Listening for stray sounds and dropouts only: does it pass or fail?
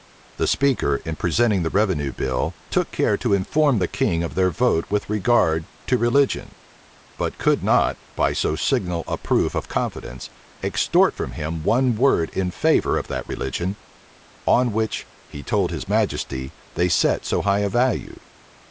pass